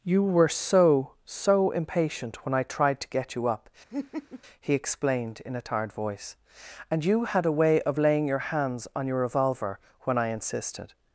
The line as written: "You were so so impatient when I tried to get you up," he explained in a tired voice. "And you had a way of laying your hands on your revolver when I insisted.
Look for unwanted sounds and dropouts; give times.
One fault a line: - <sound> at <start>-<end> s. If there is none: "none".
- laugh at 3.9-4.4 s